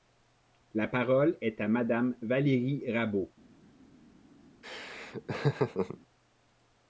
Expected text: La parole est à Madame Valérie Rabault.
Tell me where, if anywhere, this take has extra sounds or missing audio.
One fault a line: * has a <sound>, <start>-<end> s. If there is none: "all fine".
* has a laugh, 4.6-6.0 s